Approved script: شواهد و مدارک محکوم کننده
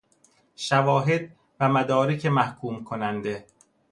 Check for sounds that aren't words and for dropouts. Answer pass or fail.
pass